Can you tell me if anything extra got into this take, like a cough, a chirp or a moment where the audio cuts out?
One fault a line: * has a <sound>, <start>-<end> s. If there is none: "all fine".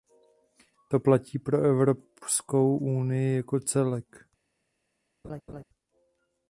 * has a laugh, 5.2-5.6 s